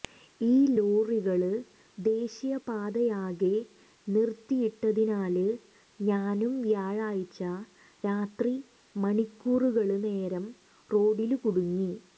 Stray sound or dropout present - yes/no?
no